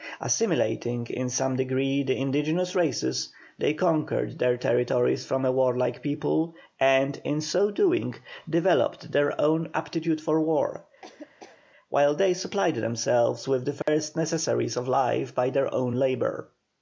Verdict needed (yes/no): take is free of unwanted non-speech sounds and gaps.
no